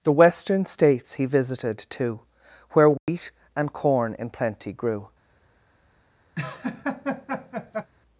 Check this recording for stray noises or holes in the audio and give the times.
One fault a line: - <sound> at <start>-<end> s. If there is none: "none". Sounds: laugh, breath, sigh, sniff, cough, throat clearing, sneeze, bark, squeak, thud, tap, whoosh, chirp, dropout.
- dropout at 3.0-3.1 s
- laugh at 6.4-7.9 s